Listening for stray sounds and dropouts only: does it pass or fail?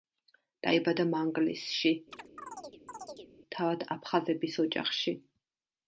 fail